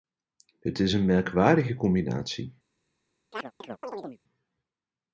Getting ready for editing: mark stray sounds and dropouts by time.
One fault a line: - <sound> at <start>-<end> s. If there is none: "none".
- chirp at 3.3-4.2 s